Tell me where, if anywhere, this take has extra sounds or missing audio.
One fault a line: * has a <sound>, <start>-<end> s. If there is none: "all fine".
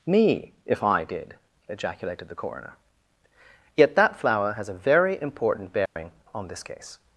* has a dropout, 5.9-6.0 s